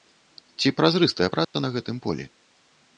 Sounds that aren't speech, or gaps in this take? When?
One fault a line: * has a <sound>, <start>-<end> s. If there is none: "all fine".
* has a dropout, 1.4-1.5 s